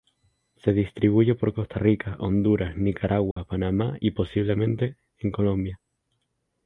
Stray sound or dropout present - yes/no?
yes